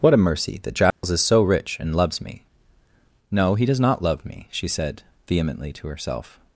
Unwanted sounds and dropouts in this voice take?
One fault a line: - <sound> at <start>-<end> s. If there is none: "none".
- dropout at 0.9-1.0 s